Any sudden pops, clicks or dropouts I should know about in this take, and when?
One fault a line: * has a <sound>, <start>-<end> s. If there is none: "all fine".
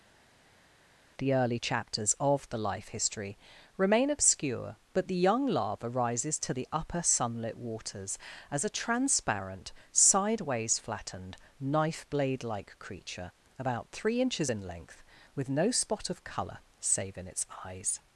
all fine